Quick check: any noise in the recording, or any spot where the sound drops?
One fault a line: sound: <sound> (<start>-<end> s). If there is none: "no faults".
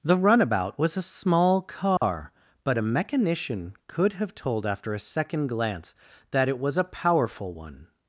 sound: dropout (2.0-2.0 s)